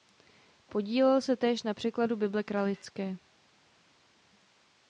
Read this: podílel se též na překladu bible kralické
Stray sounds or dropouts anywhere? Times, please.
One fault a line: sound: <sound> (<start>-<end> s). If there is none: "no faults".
no faults